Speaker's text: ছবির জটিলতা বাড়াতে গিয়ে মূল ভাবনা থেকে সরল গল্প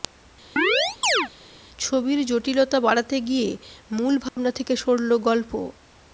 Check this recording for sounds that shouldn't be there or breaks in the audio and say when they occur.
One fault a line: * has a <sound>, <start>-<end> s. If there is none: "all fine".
* has a chirp, 0.6-1.3 s
* has a dropout, 4.3-4.4 s